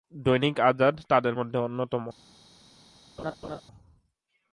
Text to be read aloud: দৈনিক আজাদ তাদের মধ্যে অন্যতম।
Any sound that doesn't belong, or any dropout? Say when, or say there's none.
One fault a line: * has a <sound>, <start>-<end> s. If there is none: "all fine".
* has a laugh, 3.2-3.6 s